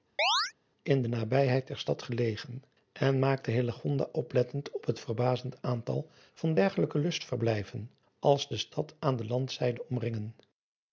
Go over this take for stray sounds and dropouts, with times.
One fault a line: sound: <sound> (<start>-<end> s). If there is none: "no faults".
sound: chirp (0.2-0.5 s)